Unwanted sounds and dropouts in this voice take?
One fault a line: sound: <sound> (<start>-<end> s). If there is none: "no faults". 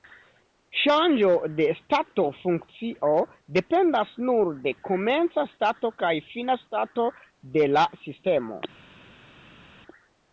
no faults